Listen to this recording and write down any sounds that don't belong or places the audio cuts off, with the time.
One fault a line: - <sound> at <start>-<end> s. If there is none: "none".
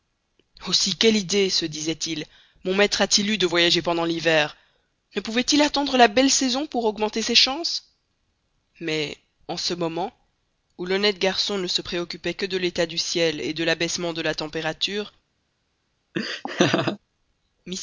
- laugh at 16.1-17.0 s